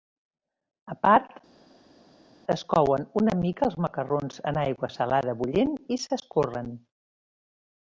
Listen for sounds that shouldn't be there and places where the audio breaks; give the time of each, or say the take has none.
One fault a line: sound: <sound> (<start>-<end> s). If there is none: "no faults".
no faults